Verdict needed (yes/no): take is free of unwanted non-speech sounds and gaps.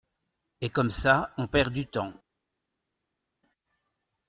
yes